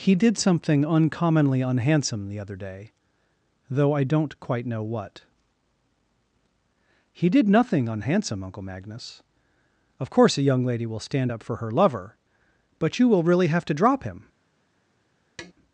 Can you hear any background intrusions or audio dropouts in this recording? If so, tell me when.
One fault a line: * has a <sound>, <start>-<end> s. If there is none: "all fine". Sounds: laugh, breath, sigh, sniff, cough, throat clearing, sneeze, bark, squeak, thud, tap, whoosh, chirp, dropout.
* has a tap, 15.4-15.5 s